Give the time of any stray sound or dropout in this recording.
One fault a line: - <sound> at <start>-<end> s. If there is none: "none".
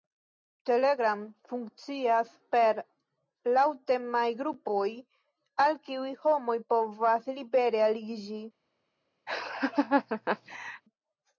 - laugh at 9.3-10.8 s